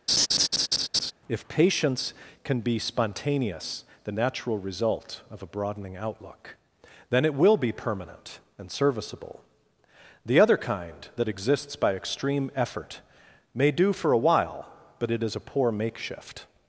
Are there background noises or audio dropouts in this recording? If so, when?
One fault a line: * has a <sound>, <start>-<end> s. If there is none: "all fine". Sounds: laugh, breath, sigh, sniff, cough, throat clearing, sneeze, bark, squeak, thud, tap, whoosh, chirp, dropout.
* has a laugh, 0.1-1.1 s